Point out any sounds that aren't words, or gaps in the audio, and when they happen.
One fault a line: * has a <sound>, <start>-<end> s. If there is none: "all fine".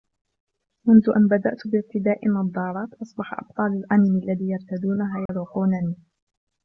* has a dropout, 5.3-5.3 s